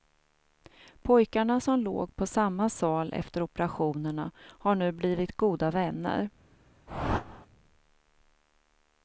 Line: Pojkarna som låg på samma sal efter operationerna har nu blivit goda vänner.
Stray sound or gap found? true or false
true